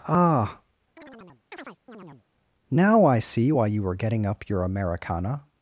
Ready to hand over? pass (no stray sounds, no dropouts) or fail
fail